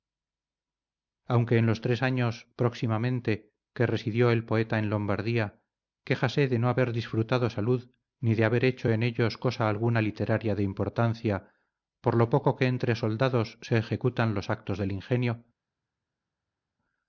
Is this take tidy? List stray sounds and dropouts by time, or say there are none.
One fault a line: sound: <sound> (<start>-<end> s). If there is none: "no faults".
no faults